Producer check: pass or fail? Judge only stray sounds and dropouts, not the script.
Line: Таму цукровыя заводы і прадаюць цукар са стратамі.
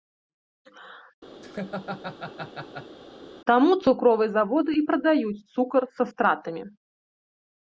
fail